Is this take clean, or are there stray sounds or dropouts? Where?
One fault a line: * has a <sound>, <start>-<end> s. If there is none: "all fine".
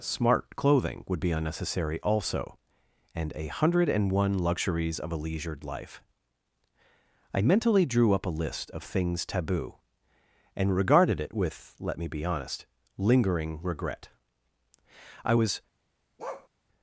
* has a bark, 16.2-16.5 s